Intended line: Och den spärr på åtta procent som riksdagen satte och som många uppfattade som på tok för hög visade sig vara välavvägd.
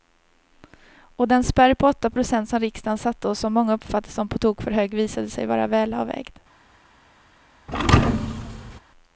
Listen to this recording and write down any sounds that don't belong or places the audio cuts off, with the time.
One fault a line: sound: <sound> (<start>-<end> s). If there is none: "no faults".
sound: thud (7.7-8.8 s)